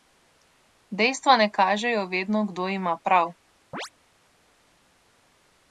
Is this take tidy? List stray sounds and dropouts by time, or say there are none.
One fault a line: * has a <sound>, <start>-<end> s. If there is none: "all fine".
* has a chirp, 3.7-3.9 s